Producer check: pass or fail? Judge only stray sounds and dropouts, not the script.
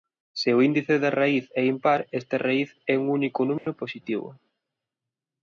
fail